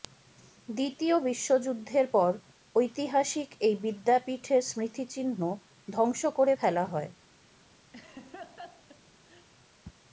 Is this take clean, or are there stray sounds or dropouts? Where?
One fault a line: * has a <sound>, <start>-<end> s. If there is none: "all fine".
* has a laugh, 7.9-9.5 s